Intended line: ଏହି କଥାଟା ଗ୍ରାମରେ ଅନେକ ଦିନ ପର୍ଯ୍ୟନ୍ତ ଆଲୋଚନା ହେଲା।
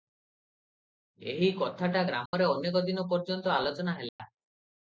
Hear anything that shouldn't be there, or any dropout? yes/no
yes